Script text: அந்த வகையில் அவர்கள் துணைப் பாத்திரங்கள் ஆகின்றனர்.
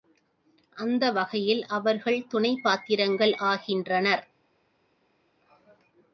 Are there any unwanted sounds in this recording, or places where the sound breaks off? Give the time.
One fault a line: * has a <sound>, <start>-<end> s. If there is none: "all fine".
all fine